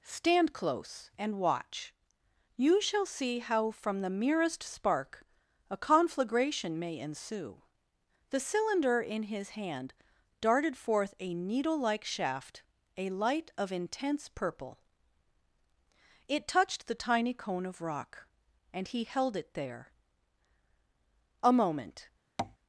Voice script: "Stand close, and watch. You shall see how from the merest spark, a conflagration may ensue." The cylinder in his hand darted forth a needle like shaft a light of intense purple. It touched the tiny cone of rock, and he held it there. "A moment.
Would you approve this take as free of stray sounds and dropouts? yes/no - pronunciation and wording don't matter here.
no